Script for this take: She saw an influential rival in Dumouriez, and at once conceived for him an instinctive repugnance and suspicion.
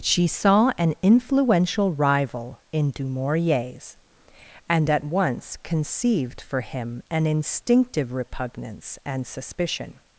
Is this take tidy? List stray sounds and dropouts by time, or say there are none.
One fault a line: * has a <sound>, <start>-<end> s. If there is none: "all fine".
all fine